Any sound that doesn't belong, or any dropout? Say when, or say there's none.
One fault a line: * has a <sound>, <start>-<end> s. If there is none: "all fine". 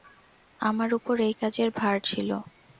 all fine